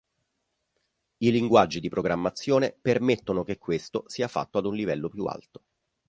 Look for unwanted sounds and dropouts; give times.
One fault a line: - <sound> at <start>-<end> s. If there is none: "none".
none